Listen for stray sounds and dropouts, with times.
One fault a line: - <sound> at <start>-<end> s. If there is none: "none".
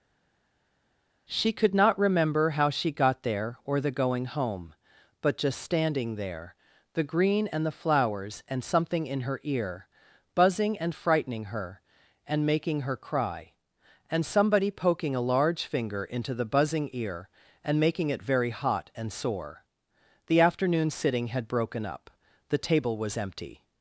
none